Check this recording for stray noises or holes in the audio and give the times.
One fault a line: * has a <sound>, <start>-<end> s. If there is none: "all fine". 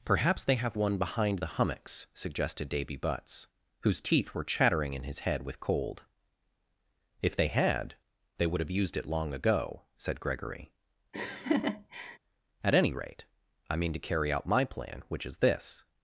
* has a laugh, 11.1-12.2 s